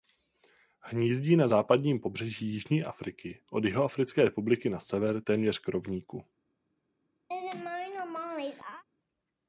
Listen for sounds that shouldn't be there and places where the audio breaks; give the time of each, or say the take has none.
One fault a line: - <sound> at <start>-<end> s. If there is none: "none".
- laugh at 7.3-8.8 s